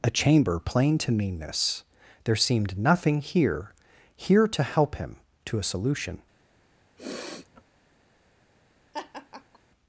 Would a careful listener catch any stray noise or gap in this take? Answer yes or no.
yes